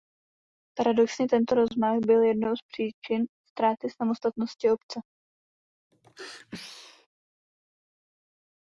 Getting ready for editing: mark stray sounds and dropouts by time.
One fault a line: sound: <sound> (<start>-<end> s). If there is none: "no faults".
sound: sneeze (5.9-7.1 s)